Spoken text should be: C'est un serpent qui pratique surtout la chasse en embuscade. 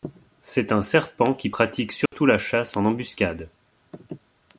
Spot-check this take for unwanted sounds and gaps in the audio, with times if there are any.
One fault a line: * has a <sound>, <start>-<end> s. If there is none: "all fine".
* has a dropout, 2.1-2.1 s